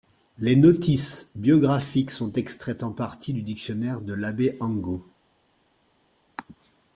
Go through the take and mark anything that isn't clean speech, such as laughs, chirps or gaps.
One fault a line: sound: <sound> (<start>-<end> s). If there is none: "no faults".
no faults